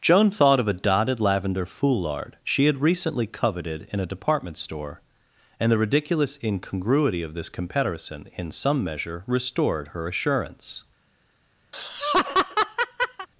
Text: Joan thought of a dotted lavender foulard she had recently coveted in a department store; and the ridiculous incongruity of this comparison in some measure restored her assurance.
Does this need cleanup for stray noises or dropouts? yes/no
yes